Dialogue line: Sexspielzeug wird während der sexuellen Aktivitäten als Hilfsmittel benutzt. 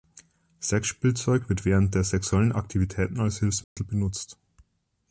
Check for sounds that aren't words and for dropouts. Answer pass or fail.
fail